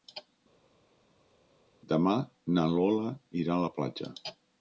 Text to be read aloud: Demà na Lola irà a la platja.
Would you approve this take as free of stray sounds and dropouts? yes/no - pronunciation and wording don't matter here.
yes